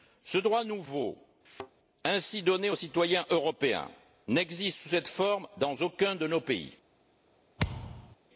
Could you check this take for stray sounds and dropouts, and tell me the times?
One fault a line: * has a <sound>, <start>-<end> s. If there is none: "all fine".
* has a thud, 1.4-1.7 s
* has a thud, 7.6-8.2 s